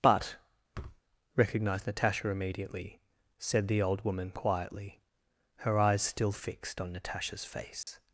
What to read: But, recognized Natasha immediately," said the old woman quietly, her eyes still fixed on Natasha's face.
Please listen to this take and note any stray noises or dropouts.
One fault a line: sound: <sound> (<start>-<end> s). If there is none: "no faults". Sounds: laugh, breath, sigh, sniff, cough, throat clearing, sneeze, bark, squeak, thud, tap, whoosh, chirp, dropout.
sound: thud (0.7-1.0 s)
sound: dropout (7.8-7.9 s)